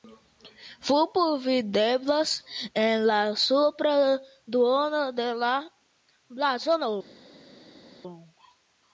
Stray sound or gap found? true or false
false